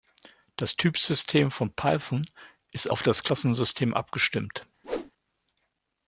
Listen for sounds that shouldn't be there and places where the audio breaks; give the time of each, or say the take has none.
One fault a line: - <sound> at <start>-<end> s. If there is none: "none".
- whoosh at 4.8-5.1 s